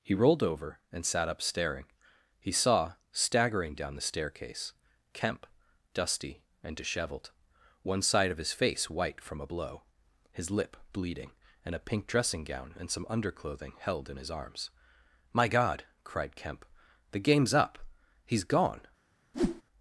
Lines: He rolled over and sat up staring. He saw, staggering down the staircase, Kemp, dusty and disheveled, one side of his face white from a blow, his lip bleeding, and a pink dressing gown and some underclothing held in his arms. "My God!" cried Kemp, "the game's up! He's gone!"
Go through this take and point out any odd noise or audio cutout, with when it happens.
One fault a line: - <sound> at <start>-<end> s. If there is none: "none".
- whoosh at 19.3-19.6 s